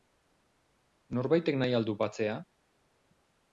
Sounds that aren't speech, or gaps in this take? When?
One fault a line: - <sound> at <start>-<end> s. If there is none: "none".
none